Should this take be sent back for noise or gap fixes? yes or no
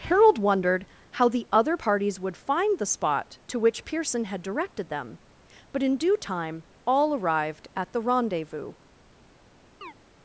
yes